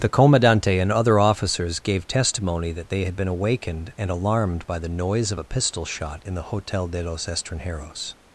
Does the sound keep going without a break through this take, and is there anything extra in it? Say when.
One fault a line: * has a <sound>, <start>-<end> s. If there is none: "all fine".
all fine